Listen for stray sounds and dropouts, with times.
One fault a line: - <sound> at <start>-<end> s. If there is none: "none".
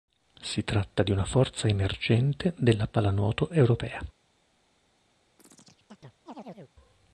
- chirp at 5.4-6.7 s